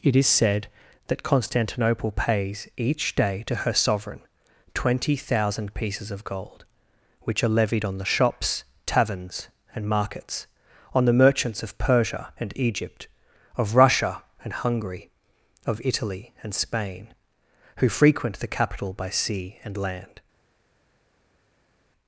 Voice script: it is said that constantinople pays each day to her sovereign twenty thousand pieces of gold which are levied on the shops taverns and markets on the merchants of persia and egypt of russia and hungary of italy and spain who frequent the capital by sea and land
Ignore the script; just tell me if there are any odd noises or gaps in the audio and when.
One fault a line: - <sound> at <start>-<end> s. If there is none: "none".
none